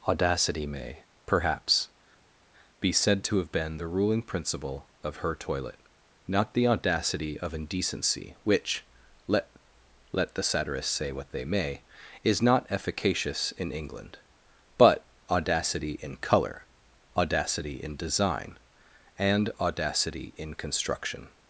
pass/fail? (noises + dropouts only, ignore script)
pass